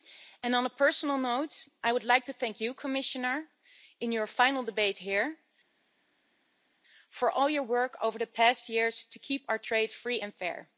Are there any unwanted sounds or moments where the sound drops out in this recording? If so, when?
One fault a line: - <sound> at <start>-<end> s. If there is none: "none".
none